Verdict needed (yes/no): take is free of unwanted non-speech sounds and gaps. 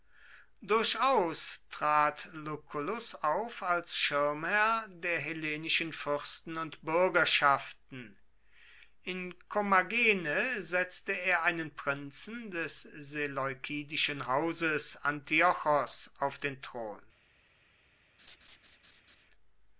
no